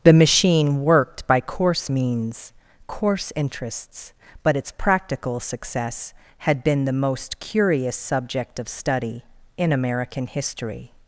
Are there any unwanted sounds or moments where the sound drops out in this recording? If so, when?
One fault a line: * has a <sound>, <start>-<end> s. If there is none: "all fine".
all fine